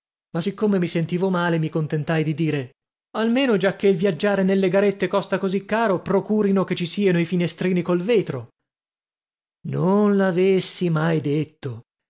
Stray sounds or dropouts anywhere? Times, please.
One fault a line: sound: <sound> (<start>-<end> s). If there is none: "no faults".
no faults